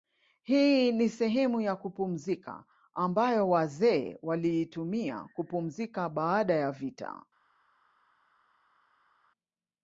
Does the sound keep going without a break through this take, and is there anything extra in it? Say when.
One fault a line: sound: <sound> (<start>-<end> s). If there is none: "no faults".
no faults